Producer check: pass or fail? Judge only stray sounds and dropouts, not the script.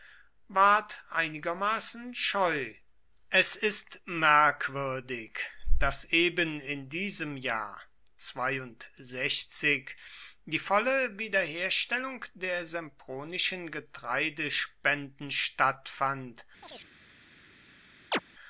fail